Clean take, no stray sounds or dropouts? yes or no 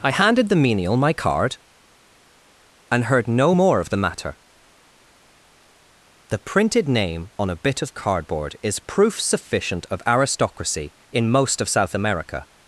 yes